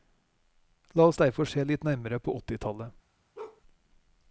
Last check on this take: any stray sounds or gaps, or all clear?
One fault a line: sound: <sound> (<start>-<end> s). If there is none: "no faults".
sound: bark (3.3-3.6 s)